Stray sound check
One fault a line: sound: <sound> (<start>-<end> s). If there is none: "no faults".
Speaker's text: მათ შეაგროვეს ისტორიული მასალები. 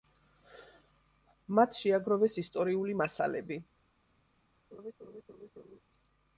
sound: laugh (4.7-5.8 s)